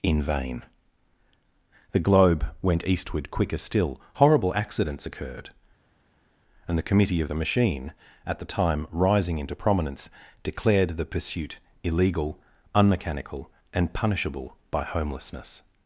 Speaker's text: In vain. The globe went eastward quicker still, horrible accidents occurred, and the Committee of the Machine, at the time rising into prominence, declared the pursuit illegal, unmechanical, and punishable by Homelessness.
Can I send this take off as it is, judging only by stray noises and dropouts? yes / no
yes